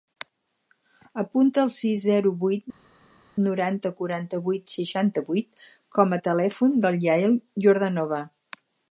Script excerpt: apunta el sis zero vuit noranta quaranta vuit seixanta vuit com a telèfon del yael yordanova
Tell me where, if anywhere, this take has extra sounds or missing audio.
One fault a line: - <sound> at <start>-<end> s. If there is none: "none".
none